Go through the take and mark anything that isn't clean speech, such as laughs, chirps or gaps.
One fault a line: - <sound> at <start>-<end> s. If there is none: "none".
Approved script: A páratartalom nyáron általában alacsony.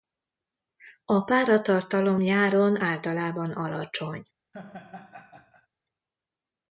- laugh at 4.5-5.7 s